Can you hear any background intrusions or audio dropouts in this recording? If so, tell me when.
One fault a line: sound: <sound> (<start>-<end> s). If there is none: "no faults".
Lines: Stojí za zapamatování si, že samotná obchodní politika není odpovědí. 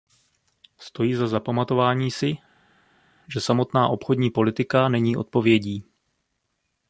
no faults